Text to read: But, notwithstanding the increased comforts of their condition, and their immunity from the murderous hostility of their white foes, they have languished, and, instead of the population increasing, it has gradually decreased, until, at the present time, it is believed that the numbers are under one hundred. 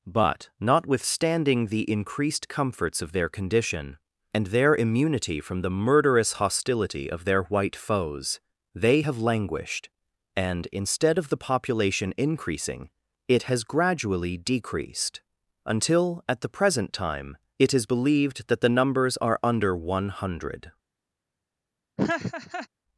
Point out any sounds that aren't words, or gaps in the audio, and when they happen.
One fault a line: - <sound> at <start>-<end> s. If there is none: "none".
- laugh at 22.0-22.7 s